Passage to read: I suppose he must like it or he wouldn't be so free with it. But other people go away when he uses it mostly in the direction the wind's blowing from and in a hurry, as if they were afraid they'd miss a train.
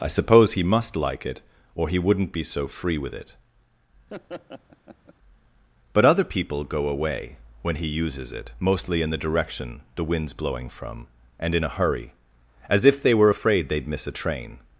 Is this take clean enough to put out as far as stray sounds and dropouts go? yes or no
no